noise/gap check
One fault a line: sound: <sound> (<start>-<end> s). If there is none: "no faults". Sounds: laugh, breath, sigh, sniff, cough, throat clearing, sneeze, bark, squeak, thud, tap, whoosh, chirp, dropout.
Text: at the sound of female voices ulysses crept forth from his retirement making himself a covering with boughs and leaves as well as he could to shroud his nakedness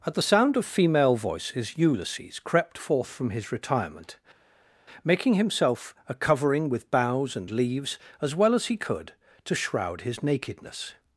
no faults